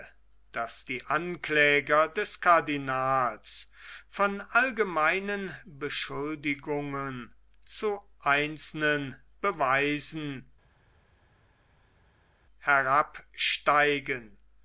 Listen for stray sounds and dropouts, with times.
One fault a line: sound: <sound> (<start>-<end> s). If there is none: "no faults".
no faults